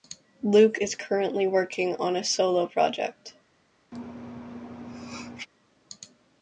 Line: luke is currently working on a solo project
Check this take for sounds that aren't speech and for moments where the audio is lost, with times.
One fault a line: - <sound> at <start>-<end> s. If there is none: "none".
- sneeze at 3.9-5.5 s